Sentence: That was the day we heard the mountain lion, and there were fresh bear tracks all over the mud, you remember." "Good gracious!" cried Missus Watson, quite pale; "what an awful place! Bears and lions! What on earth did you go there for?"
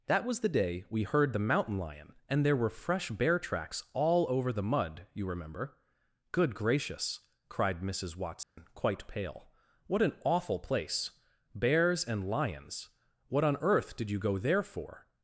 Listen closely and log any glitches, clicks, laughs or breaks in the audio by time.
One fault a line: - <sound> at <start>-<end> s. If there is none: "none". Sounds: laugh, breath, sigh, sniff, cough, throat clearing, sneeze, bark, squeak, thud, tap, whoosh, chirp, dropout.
- dropout at 8.4-8.6 s